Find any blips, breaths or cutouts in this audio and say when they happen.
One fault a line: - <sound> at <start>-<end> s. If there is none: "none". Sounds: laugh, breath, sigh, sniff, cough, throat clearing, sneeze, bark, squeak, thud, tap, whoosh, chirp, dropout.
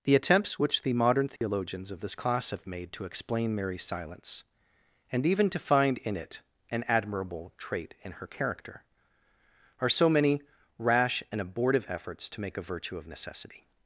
- dropout at 1.4-1.4 s